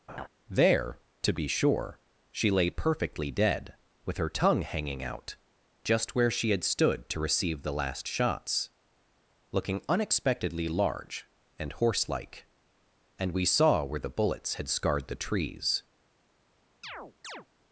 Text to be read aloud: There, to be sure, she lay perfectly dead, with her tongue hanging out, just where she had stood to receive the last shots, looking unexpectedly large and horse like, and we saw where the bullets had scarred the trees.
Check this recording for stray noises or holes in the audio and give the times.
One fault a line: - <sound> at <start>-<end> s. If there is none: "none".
- laugh at 0.1-0.3 s
- chirp at 16.8-17.5 s